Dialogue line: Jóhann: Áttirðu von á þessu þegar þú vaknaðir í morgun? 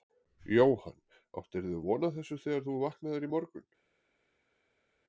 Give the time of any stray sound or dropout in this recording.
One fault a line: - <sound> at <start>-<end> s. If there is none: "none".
none